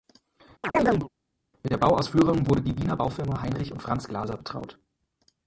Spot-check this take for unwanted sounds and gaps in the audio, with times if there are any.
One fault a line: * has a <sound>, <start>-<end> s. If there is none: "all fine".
* has a chirp, 0.6-1.1 s